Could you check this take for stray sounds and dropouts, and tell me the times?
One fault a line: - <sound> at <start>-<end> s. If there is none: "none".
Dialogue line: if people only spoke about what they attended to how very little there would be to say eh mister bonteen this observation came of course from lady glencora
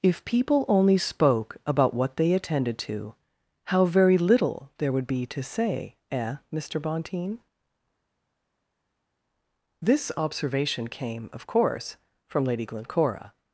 none